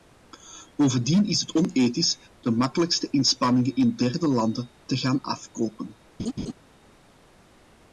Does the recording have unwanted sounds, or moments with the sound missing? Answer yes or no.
yes